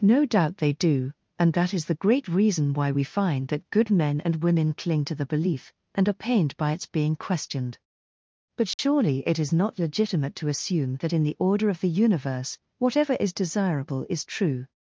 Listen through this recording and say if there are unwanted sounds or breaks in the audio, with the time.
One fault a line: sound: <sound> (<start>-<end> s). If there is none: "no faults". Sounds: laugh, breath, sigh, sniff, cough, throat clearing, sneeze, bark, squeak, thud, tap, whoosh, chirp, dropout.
sound: dropout (8.7-8.8 s)